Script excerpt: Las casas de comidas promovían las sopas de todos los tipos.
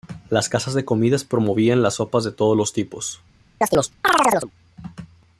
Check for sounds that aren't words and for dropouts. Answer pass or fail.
fail